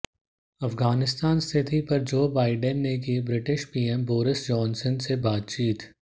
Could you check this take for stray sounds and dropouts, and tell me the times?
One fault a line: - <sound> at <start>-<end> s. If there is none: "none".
none